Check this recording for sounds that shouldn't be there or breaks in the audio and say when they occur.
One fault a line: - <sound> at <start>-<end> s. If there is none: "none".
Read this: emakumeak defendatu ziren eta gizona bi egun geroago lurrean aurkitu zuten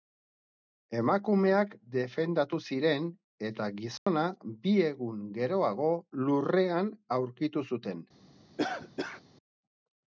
- dropout at 4.0-4.1 s
- cough at 8.6-9.2 s